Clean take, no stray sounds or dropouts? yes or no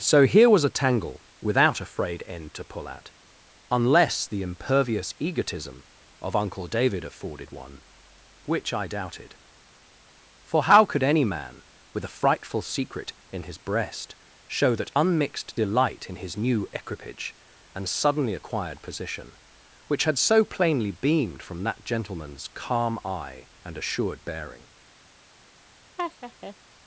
no